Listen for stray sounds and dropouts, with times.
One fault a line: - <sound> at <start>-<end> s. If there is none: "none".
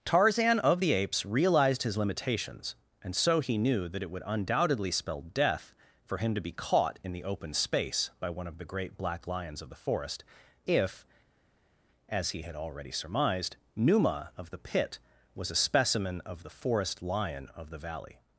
none